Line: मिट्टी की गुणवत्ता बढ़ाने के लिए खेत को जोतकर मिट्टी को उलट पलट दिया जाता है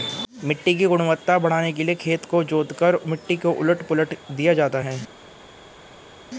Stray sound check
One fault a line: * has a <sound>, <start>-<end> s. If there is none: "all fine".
all fine